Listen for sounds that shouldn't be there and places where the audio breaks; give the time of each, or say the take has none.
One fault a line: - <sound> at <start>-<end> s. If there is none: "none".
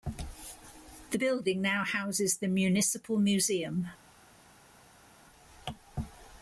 none